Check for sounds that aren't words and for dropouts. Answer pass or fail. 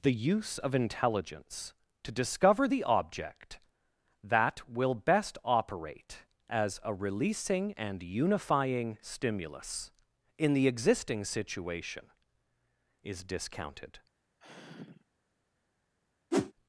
fail